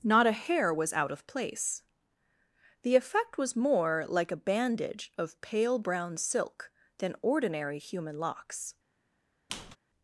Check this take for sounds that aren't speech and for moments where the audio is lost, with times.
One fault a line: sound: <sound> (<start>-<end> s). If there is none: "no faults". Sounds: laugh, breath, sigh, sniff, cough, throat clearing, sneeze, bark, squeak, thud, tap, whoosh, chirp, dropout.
sound: squeak (9.5-9.8 s)